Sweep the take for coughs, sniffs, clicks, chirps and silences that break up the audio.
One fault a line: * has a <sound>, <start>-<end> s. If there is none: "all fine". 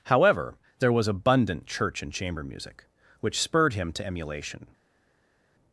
all fine